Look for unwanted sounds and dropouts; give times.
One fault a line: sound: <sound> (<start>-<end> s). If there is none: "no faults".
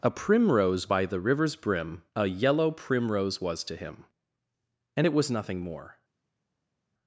no faults